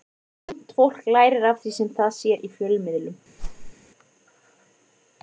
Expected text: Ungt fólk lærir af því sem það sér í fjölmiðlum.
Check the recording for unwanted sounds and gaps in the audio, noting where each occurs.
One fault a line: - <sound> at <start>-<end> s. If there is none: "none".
- whoosh at 3.4-3.7 s